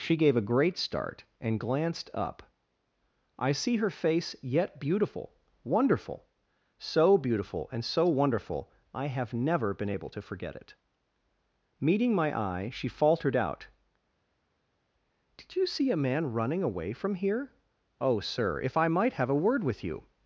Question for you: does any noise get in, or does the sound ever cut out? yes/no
no